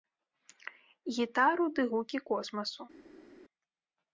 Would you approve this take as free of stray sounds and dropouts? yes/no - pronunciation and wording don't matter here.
yes